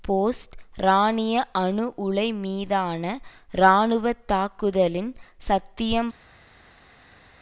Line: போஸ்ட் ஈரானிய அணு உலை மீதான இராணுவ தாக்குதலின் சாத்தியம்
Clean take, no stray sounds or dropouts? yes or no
yes